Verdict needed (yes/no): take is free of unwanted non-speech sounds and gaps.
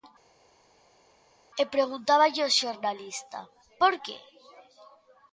yes